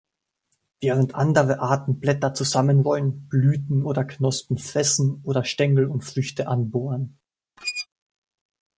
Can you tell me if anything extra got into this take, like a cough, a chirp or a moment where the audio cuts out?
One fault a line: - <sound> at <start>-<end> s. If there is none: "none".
- squeak at 7.6-7.9 s